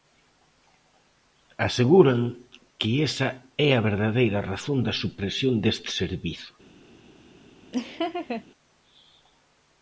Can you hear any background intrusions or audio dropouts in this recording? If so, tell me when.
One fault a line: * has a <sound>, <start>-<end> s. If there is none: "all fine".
* has a laugh, 7.7-8.4 s